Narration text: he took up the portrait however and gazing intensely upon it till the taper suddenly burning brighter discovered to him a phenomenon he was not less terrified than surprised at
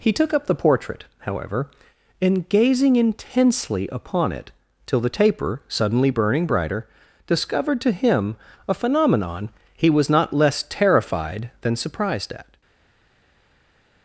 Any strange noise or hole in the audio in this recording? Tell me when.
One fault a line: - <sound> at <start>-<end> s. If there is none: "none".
none